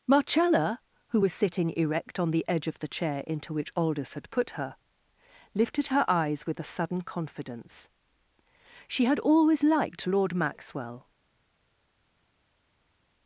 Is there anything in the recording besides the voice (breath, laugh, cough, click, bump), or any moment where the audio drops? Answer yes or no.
no